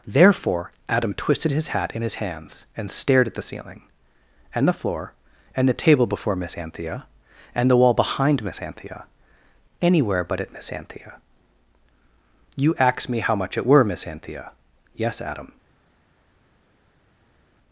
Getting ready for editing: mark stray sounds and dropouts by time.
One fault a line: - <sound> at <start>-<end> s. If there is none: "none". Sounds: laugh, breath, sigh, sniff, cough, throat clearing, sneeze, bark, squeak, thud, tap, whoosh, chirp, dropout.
none